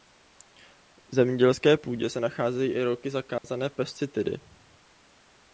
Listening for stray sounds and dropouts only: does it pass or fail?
fail